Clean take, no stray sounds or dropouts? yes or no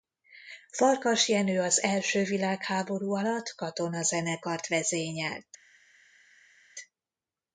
yes